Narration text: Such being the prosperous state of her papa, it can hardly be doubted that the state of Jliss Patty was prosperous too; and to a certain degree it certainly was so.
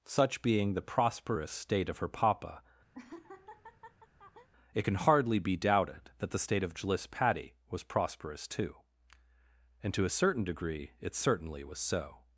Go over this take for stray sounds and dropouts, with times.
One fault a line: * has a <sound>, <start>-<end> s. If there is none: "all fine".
* has a laugh, 2.9-4.5 s